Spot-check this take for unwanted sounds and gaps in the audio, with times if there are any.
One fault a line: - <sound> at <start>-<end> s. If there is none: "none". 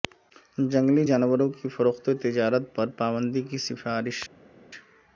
none